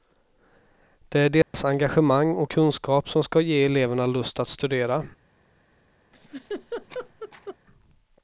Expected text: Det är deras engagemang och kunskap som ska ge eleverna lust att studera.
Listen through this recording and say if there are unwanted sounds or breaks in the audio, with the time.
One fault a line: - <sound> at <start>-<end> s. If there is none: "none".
- dropout at 1.4-1.5 s
- laugh at 6.1-7.6 s